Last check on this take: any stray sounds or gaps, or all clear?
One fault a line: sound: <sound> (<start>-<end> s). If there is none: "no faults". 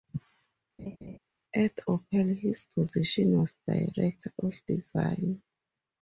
sound: laugh (0.8-1.2 s)